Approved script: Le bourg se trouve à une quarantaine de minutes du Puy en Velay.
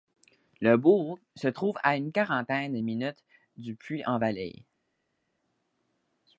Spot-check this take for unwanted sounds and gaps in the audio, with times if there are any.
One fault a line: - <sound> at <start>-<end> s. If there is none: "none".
none